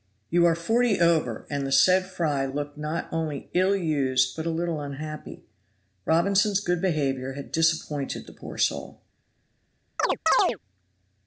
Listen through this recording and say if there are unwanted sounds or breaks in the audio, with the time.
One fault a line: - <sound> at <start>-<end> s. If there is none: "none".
- chirp at 10.0-10.6 s